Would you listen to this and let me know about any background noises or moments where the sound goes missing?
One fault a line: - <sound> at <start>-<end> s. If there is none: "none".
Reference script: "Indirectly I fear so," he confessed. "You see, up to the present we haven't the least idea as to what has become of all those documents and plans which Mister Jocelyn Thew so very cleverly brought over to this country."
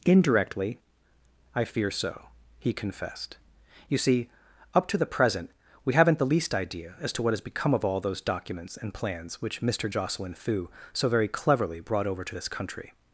none